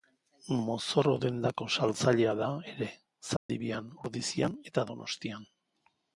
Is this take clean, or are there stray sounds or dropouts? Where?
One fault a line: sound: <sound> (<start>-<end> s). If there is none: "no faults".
sound: dropout (3.4-3.5 s)